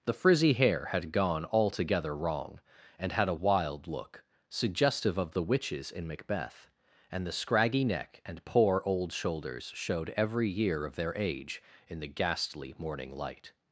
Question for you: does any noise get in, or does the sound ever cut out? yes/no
no